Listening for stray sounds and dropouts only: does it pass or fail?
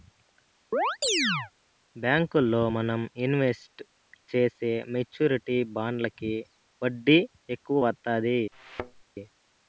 fail